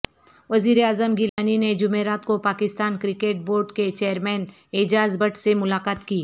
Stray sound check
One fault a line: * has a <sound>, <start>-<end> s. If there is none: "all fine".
* has a dropout, 1.3-1.4 s